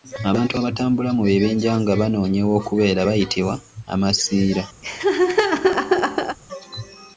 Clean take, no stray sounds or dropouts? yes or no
no